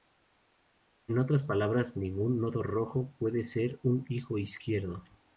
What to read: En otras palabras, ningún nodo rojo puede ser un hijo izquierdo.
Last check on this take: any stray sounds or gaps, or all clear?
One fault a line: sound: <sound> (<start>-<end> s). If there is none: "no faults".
no faults